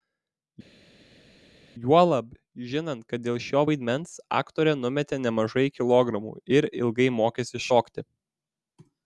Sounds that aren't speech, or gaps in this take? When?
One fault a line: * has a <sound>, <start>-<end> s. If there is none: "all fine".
all fine